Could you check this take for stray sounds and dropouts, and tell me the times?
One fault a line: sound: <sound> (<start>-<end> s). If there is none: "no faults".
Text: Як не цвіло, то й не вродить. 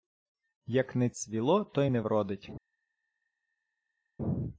no faults